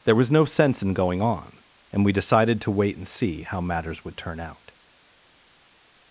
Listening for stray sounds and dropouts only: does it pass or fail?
pass